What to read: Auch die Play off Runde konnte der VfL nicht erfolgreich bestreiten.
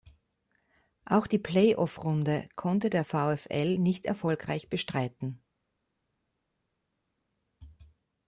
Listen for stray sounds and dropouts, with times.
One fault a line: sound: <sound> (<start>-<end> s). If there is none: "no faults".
no faults